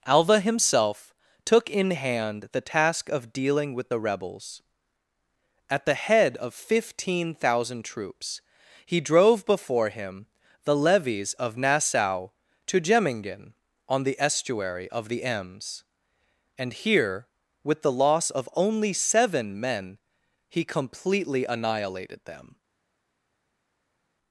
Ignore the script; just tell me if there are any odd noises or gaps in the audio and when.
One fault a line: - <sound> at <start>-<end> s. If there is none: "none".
none